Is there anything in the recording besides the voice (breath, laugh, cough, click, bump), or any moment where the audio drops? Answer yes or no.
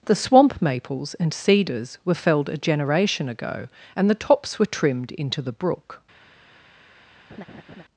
yes